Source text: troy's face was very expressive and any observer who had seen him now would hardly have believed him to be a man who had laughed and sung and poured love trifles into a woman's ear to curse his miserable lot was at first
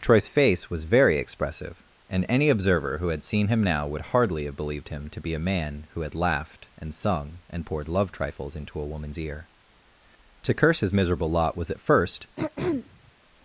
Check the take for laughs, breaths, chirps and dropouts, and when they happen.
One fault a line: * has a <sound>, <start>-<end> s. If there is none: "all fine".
* has a throat clearing, 12.4-13.1 s